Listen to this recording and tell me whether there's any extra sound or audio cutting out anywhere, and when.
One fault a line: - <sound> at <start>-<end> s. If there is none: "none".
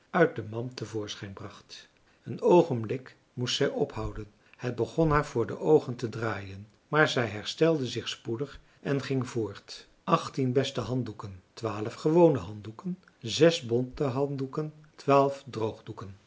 none